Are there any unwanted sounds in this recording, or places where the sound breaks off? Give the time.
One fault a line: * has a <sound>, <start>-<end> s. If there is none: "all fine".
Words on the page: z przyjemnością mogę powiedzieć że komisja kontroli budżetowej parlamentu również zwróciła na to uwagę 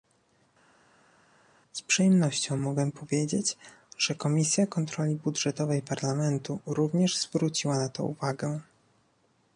all fine